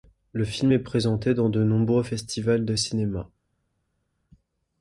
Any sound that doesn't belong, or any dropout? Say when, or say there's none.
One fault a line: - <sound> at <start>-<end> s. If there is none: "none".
none